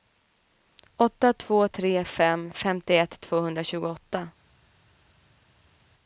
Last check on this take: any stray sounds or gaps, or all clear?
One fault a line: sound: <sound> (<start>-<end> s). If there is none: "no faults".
no faults